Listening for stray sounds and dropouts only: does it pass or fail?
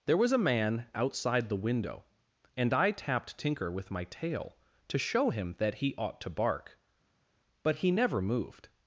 pass